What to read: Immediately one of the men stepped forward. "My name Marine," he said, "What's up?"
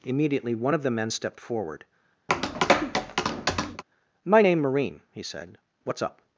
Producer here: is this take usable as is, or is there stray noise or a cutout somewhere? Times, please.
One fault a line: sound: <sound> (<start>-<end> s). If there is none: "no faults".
sound: tap (2.3-3.8 s)